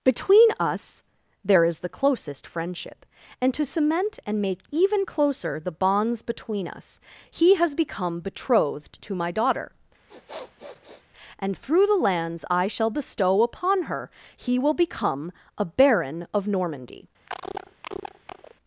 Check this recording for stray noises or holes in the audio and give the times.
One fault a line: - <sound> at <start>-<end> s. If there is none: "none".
- sniff at 10.1-11.1 s
- cough at 17.3-18.5 s